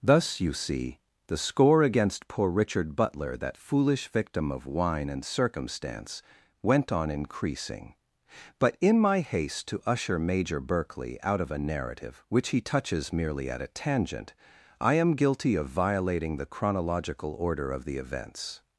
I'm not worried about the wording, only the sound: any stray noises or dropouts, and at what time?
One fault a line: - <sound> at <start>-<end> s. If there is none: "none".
none